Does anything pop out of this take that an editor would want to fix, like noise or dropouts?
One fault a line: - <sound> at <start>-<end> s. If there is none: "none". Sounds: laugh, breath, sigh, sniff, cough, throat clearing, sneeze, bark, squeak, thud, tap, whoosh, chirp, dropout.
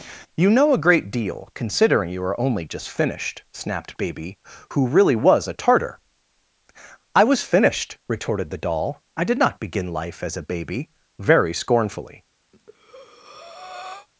- breath at 12.5-14.1 s